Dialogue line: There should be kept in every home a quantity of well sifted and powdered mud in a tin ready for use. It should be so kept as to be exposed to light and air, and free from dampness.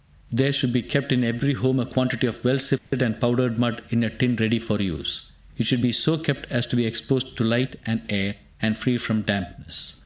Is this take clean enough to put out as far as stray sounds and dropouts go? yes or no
no